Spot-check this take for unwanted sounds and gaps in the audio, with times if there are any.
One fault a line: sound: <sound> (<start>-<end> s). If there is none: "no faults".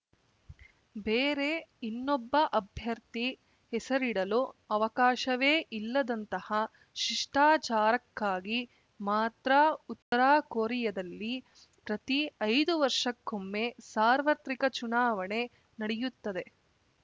sound: dropout (10.0-10.1 s)